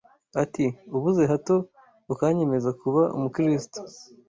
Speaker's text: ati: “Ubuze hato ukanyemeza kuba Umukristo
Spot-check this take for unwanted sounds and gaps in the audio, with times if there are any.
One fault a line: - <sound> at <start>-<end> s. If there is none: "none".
none